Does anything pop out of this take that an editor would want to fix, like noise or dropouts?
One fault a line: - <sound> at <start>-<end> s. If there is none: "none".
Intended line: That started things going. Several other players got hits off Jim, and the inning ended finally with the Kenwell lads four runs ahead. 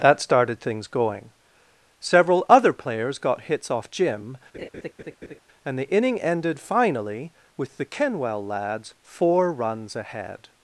- laugh at 4.5-5.4 s